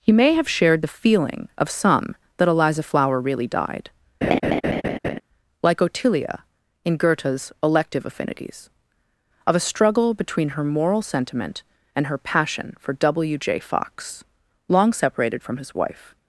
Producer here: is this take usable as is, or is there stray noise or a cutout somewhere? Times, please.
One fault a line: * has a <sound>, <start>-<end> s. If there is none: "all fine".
* has a laugh, 4.2-5.2 s